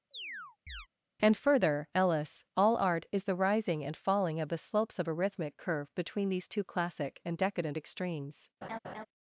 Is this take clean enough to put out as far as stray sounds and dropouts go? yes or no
no